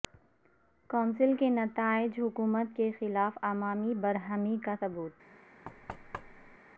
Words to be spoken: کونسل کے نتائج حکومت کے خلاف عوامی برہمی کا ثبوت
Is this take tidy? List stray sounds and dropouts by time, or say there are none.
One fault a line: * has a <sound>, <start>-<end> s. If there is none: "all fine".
* has a thud, 5.6-6.6 s